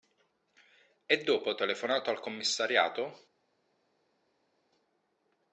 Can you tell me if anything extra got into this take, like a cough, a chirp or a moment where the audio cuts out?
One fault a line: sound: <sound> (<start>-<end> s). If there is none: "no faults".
no faults